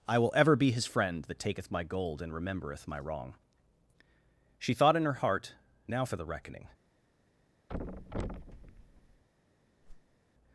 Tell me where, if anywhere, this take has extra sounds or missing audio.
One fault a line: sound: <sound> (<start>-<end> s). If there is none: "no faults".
sound: thud (7.7-9.2 s)
sound: whoosh (9.8-10.2 s)